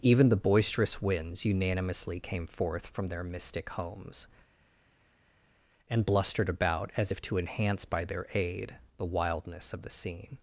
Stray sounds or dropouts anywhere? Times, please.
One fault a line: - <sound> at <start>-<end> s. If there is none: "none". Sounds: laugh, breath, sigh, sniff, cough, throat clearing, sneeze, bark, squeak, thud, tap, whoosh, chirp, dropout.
none